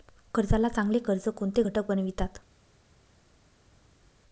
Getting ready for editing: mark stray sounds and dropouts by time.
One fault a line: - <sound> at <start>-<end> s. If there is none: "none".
none